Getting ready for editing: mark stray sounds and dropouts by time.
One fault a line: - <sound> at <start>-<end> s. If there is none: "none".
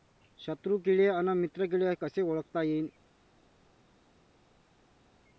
none